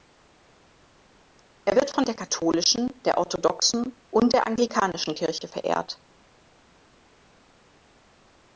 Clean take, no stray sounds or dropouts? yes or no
yes